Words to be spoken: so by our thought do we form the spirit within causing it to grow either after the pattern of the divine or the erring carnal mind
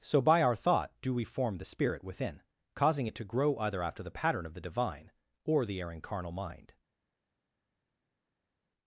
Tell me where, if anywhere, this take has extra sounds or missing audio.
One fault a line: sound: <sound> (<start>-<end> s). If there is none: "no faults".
no faults